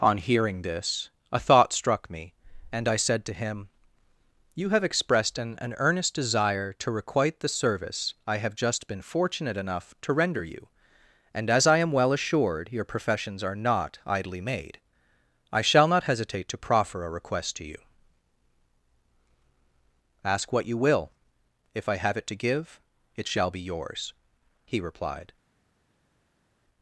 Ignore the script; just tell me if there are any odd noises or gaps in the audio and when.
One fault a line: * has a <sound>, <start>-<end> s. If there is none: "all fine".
all fine